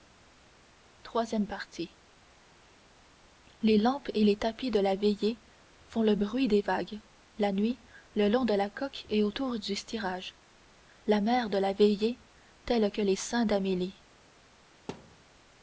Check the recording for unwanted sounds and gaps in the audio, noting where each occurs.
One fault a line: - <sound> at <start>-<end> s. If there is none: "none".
- thud at 14.9-15.2 s